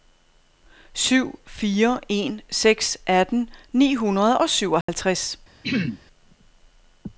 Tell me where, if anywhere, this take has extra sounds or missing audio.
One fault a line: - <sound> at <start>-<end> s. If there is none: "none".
- dropout at 4.8-4.9 s
- throat clearing at 5.6-6.0 s